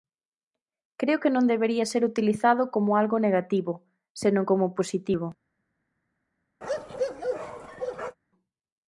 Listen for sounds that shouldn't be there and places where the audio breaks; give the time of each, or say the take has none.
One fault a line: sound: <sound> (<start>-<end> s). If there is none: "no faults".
sound: bark (6.6-8.2 s)